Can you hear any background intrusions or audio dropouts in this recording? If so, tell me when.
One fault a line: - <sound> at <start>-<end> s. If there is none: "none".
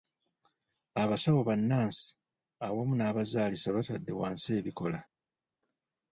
none